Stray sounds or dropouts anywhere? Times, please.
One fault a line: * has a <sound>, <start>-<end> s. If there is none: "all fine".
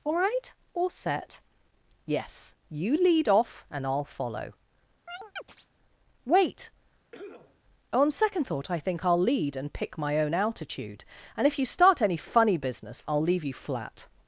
* has a chirp, 5.1-5.7 s
* has a cough, 7.1-7.6 s